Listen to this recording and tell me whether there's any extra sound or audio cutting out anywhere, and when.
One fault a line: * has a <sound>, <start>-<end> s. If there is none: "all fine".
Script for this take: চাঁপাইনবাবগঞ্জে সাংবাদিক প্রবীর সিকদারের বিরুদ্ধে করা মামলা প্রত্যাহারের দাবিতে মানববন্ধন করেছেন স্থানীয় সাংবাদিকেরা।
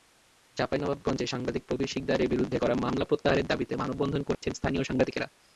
* has a dropout, 4.3-4.4 s